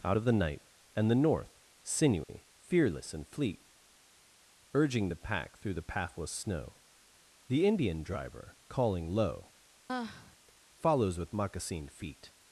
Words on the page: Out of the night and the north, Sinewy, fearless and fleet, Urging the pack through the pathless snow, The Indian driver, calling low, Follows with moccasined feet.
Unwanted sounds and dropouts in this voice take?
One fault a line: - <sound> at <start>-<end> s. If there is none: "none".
- dropout at 2.2-2.3 s
- sigh at 9.9-10.4 s